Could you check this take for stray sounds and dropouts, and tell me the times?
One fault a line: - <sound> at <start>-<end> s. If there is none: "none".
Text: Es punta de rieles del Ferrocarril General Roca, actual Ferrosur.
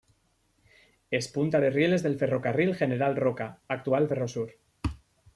none